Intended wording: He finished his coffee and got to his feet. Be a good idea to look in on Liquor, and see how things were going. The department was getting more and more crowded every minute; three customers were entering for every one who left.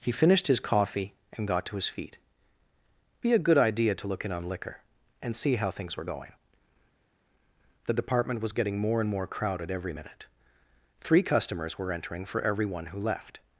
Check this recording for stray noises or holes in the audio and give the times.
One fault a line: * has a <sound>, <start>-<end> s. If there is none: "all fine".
all fine